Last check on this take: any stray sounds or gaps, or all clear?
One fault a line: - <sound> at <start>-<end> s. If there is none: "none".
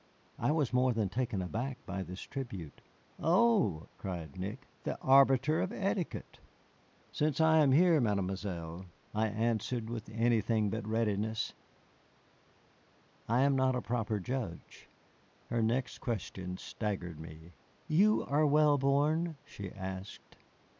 none